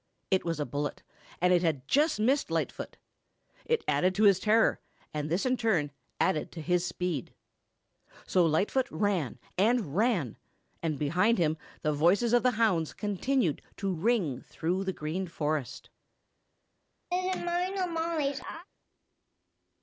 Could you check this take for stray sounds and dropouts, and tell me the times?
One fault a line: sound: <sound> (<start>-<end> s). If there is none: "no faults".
sound: laugh (17.1-18.7 s)